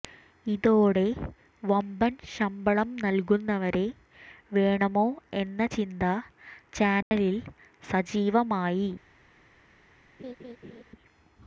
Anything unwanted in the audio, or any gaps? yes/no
yes